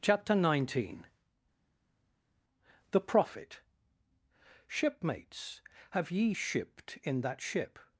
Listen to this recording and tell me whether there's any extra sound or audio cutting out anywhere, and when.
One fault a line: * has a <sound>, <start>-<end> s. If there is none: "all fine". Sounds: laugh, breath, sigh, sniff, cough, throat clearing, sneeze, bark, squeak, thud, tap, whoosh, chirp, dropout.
all fine